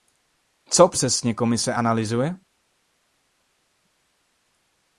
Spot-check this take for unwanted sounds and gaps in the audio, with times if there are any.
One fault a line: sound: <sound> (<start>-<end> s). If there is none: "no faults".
no faults